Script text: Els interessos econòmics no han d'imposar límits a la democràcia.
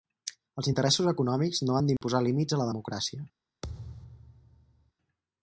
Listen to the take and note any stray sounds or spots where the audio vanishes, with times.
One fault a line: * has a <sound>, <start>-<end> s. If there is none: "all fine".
* has a dropout, 2.0-2.0 s
* has a thud, 3.6-4.9 s